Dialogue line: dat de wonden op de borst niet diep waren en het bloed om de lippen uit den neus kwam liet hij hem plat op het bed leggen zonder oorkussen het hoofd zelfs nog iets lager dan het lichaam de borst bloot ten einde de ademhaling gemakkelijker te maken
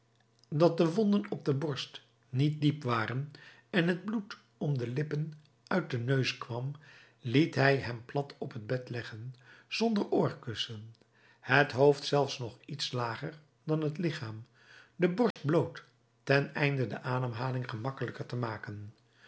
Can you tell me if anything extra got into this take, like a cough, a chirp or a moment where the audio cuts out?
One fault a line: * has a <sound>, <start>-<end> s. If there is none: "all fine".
* has a dropout, 15.3-15.4 s